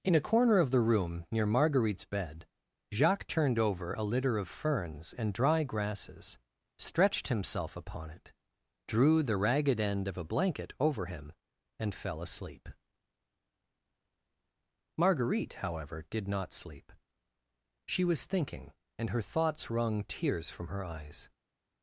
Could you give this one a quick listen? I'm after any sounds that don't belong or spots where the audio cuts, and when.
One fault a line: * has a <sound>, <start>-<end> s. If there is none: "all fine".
all fine